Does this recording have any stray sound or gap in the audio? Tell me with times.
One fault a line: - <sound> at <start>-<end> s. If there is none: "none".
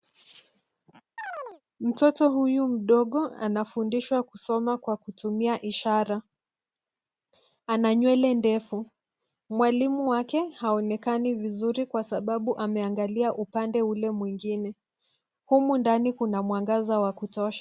- chirp at 1.2-1.6 s